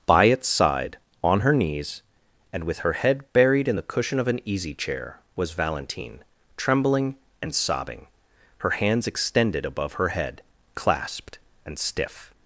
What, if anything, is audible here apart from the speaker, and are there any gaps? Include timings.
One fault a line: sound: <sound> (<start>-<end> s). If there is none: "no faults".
no faults